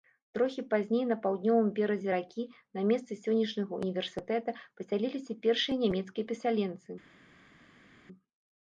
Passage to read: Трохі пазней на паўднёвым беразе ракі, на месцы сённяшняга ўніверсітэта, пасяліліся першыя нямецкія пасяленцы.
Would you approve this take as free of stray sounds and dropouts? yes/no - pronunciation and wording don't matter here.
yes